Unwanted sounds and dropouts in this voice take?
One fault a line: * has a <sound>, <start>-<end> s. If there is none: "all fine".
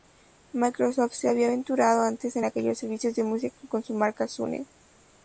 all fine